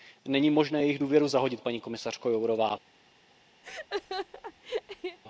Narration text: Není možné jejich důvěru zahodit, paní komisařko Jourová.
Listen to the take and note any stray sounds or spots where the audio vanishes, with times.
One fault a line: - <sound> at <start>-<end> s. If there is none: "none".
- laugh at 3.6-5.2 s